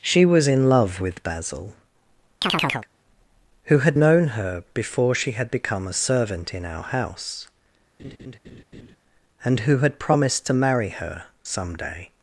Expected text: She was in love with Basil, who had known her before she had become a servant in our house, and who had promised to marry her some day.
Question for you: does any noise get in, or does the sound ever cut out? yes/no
yes